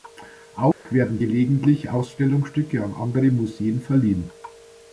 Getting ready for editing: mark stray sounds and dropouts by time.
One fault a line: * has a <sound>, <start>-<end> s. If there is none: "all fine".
* has a dropout, 0.7-0.9 s